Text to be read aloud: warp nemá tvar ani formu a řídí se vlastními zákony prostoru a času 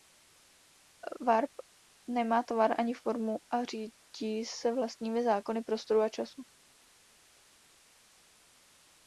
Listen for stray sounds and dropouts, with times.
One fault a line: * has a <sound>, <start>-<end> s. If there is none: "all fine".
all fine